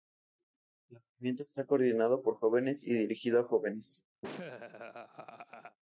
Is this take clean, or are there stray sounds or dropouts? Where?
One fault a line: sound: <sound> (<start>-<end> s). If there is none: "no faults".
sound: laugh (4.2-5.8 s)